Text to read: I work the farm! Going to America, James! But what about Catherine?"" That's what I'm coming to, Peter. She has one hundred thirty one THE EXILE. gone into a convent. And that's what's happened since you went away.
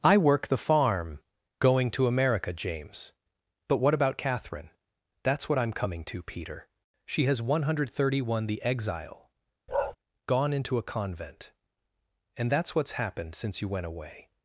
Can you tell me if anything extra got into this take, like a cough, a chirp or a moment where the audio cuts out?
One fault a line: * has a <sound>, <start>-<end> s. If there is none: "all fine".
* has a bark, 9.7-10.0 s